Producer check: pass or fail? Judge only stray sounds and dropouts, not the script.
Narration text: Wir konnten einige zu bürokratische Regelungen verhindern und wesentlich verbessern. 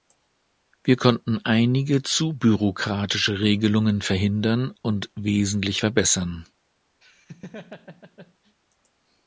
fail